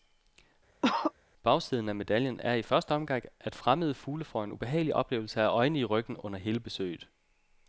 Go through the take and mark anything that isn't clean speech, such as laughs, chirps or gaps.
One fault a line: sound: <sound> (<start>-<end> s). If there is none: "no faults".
sound: cough (0.8-1.1 s)